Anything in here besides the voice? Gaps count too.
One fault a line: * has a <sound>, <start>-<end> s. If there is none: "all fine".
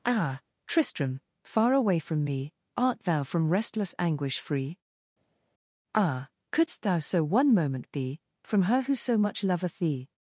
all fine